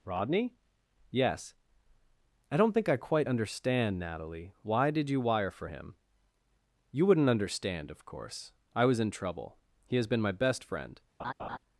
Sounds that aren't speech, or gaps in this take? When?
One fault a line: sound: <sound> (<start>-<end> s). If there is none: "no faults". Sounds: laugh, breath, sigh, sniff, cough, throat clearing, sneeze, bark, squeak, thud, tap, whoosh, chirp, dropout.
sound: laugh (11.2-11.6 s)